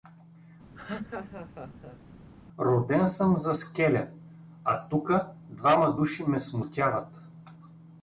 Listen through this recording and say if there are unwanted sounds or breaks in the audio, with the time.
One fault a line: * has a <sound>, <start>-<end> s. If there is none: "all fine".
* has a laugh, 0.7-2.0 s